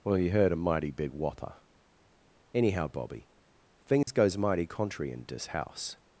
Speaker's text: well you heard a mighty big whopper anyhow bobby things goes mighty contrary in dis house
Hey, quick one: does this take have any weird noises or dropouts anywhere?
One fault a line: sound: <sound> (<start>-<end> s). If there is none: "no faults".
sound: dropout (4.0-4.1 s)